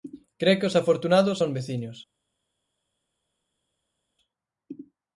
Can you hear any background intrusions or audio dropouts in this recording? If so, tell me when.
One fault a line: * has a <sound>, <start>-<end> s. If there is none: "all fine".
all fine